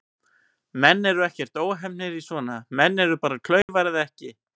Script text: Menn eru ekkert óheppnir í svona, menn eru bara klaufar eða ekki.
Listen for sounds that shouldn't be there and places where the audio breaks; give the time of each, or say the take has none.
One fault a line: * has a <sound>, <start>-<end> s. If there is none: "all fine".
* has a dropout, 3.6-3.7 s